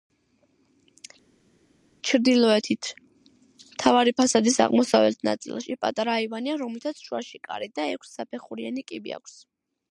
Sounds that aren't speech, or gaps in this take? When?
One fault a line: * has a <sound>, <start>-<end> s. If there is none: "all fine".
all fine